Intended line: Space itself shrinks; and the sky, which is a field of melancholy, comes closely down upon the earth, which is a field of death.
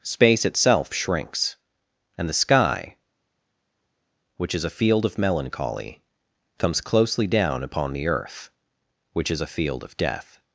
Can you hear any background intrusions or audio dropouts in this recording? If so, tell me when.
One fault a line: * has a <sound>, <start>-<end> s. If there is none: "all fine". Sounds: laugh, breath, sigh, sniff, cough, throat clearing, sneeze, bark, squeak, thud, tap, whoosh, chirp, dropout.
all fine